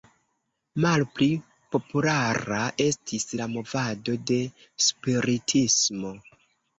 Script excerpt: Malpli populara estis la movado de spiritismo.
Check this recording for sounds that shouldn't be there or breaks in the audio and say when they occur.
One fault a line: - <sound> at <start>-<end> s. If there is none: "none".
none